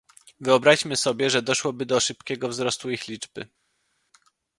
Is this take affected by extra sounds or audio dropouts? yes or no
no